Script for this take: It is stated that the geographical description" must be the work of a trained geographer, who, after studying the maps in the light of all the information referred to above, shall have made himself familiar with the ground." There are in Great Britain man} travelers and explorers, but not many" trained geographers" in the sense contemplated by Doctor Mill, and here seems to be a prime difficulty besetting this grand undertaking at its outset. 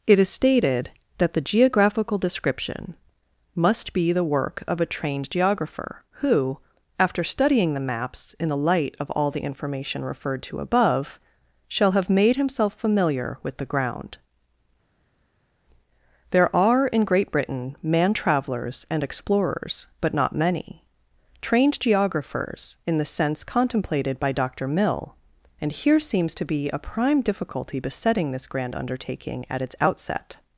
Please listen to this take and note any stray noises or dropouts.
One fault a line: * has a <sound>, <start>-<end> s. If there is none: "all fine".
all fine